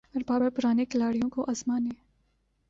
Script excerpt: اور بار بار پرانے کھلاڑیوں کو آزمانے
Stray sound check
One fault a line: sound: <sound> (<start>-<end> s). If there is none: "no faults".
no faults